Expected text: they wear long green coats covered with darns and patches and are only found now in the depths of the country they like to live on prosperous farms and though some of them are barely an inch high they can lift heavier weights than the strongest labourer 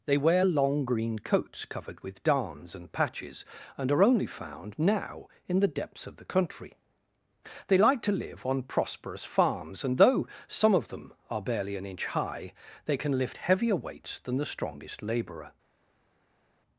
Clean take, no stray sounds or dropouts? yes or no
yes